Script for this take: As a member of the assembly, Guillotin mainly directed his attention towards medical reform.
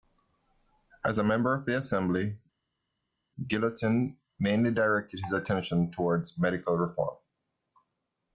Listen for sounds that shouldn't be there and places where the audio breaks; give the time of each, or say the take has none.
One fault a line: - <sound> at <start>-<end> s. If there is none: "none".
none